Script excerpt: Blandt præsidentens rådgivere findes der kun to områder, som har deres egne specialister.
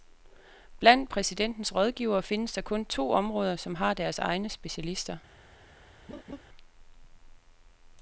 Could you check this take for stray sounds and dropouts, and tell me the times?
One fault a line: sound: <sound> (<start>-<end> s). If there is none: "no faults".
sound: laugh (6.1-6.4 s)